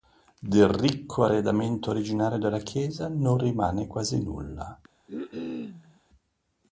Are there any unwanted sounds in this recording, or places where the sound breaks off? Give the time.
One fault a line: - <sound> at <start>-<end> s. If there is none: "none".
- cough at 5.1-6.0 s